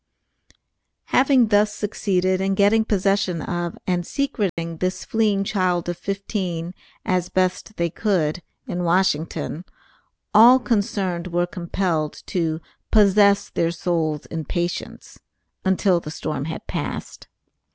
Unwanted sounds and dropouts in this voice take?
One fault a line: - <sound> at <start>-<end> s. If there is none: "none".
- dropout at 4.5-4.6 s